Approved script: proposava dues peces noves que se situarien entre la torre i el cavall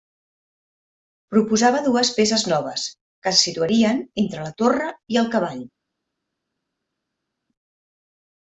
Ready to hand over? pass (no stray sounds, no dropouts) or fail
pass